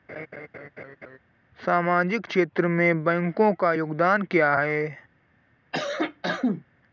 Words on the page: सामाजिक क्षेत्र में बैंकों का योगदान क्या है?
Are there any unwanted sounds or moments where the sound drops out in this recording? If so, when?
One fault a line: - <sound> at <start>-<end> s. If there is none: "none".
- laugh at 0.1-1.2 s
- cough at 5.7-6.6 s